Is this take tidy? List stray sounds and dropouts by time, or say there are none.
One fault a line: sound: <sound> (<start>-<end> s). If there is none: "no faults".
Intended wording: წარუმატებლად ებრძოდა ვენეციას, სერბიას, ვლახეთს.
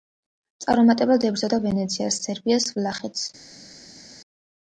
no faults